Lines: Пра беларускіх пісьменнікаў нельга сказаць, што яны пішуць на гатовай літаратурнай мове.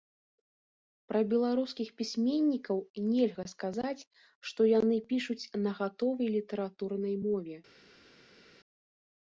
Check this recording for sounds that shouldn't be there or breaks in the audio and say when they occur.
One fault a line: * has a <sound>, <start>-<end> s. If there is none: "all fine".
all fine